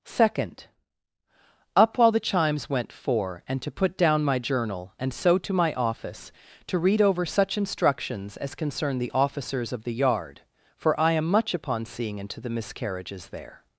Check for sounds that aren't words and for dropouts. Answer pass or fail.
pass